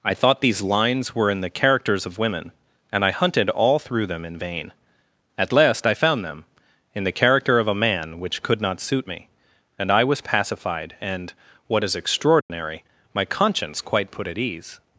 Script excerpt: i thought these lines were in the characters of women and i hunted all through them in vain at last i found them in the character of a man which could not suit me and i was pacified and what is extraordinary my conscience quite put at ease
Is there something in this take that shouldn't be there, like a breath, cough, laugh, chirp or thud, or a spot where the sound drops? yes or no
yes